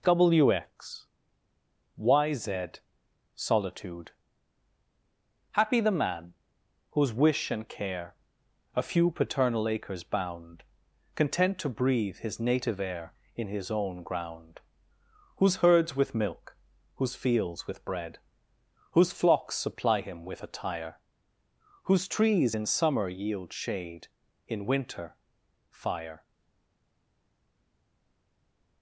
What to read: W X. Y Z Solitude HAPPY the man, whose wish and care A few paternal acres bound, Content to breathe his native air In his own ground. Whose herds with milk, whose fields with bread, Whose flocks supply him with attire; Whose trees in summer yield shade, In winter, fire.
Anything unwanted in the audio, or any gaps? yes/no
no